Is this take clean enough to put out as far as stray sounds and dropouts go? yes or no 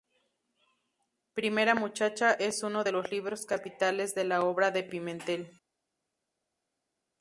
yes